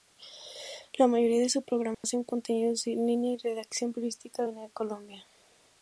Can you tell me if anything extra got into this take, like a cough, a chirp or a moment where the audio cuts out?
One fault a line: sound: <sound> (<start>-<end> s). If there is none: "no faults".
sound: dropout (1.9-2.0 s)